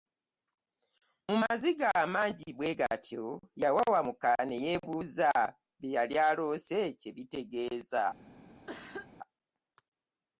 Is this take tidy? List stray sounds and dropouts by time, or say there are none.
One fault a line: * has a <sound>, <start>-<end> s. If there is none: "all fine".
* has a cough, 8.7-9.1 s